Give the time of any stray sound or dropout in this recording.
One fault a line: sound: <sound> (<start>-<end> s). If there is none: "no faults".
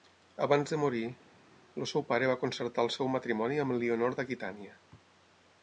no faults